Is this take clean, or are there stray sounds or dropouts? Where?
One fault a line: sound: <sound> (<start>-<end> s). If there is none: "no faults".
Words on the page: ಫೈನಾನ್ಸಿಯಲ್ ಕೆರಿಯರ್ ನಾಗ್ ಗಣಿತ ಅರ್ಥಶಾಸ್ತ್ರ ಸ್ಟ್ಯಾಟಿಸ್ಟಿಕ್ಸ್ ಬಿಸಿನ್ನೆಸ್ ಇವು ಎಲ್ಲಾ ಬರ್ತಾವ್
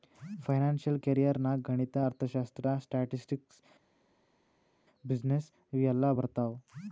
no faults